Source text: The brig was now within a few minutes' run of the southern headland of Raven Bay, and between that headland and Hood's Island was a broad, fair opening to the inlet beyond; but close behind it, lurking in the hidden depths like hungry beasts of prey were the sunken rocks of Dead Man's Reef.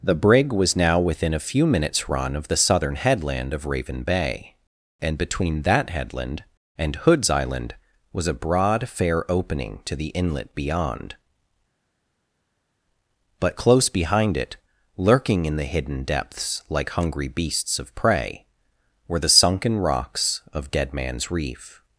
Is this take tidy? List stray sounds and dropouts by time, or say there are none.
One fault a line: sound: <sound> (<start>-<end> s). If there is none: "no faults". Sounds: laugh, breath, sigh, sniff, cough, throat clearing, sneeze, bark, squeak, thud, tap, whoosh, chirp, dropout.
no faults